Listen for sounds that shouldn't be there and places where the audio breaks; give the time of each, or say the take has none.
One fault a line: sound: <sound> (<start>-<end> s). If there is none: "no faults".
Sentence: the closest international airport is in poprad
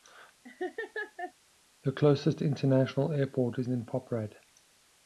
sound: laugh (0.4-1.3 s)